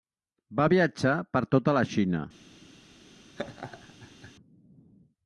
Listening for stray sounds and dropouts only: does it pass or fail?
fail